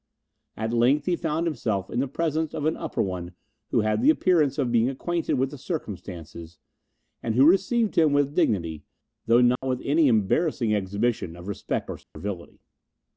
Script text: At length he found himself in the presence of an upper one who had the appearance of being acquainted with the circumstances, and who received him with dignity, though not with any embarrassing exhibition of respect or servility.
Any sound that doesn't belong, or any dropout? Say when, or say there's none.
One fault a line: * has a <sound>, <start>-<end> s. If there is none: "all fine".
* has a dropout, 9.6-9.6 s
* has a dropout, 12.0-12.2 s